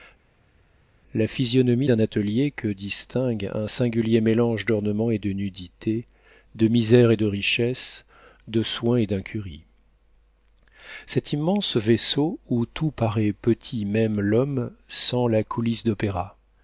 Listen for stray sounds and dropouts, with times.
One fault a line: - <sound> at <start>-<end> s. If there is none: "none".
none